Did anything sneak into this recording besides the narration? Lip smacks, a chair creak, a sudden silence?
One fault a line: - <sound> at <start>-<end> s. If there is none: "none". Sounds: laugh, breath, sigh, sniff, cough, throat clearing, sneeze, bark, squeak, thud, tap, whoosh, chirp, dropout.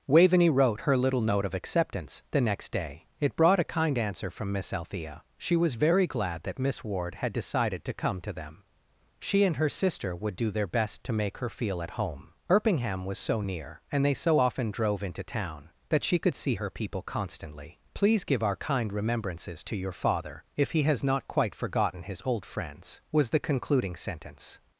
none